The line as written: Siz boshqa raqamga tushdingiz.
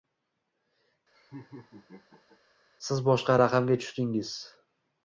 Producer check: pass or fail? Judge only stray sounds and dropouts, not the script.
fail